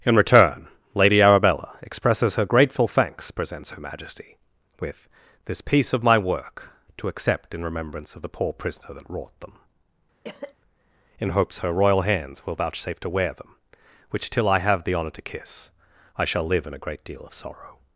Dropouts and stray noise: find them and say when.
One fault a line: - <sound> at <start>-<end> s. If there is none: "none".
- cough at 10.2-10.6 s